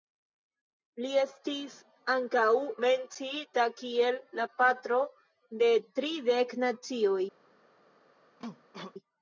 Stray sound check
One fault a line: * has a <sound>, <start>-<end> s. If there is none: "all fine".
* has a cough, 8.4-8.9 s